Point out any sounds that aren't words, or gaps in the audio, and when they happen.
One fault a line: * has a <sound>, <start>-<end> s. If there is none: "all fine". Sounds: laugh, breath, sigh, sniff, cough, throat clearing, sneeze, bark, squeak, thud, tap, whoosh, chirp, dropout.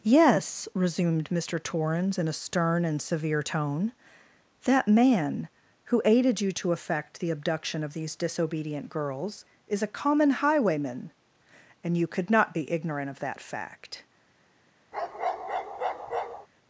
* has a bark, 14.9-16.5 s